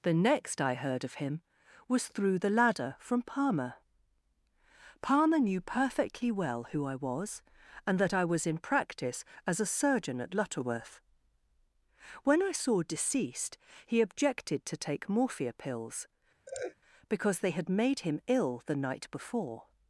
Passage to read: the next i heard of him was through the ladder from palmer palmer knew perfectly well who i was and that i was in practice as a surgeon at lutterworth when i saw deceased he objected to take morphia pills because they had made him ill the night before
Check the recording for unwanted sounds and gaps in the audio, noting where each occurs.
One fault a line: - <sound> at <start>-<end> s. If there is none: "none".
- laugh at 16.5-16.8 s